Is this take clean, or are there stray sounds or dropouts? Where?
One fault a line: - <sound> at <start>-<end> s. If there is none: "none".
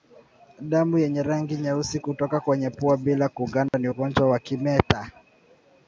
- dropout at 3.7-3.7 s